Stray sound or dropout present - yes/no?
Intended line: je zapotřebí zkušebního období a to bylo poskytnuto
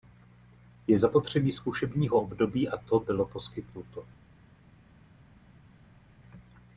no